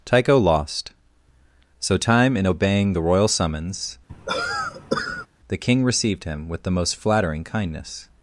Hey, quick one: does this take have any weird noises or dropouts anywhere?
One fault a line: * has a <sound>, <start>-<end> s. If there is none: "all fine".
* has a cough, 4.1-5.3 s